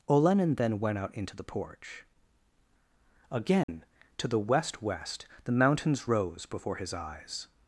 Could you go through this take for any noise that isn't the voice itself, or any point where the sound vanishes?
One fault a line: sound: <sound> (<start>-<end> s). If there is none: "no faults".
sound: dropout (3.6-3.7 s)